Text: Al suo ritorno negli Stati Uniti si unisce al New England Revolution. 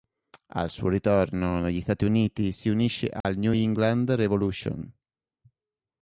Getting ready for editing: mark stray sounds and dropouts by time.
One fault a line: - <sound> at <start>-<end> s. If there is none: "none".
- dropout at 3.2-3.2 s